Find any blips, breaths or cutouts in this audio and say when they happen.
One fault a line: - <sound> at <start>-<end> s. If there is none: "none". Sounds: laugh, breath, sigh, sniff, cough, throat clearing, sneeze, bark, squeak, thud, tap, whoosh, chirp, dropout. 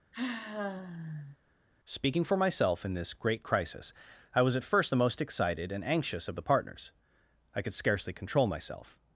- sigh at 0.1-1.4 s